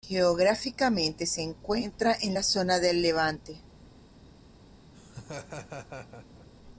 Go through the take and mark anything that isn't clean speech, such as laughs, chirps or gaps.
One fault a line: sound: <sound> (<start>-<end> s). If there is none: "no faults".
sound: laugh (4.9-6.5 s)